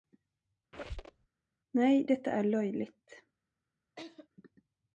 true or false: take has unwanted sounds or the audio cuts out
true